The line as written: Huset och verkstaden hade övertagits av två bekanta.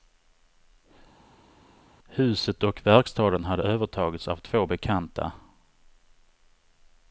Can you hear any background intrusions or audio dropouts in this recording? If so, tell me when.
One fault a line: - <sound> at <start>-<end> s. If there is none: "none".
none